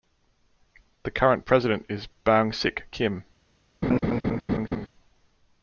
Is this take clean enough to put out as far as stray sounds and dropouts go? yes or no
no